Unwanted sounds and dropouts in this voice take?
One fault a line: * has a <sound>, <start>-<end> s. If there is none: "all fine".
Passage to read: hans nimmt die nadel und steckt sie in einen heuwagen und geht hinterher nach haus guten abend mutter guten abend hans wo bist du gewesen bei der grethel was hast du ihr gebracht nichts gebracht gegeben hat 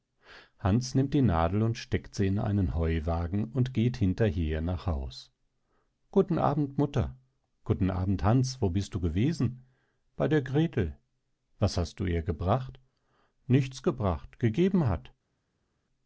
all fine